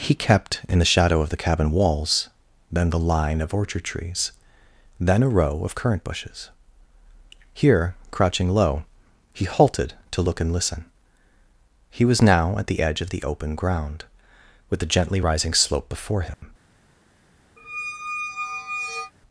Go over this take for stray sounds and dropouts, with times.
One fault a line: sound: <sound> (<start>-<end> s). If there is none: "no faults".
sound: dropout (16.3-16.4 s)
sound: squeak (17.6-19.1 s)